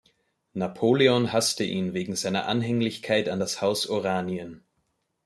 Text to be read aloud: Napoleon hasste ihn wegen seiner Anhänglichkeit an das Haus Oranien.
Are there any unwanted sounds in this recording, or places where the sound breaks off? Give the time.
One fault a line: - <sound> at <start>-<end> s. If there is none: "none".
none